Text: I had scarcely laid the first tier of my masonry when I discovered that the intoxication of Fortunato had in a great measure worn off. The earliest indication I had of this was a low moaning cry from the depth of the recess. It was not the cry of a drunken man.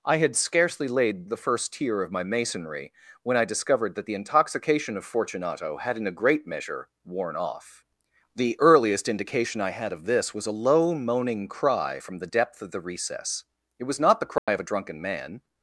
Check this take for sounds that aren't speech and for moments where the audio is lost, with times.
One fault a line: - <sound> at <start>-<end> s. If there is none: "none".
- dropout at 14.4-14.5 s